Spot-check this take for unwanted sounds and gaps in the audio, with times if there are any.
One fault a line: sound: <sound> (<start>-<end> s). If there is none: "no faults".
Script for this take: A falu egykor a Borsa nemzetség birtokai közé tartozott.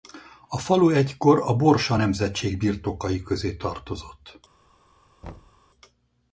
sound: thud (5.2-5.6 s)